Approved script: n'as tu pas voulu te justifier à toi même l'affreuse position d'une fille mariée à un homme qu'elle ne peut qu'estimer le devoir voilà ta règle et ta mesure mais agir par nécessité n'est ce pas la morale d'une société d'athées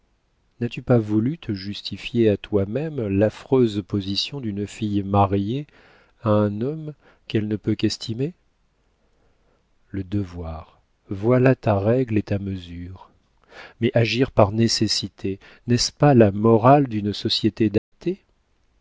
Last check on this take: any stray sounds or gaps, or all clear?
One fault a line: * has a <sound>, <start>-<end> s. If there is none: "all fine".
* has a dropout, 17.8-17.9 s